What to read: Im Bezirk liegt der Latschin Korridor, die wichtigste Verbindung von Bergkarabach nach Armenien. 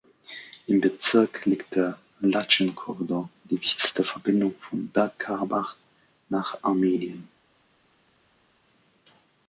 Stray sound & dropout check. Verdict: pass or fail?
pass